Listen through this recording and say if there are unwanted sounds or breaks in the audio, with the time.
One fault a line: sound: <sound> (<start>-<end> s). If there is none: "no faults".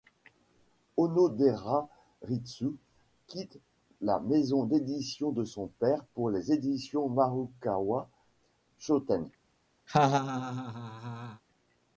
sound: laugh (9.9-11.4 s)